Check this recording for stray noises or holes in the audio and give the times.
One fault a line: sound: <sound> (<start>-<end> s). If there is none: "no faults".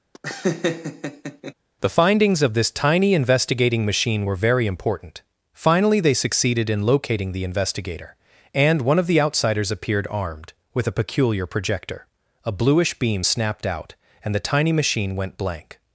sound: laugh (0.1-1.5 s)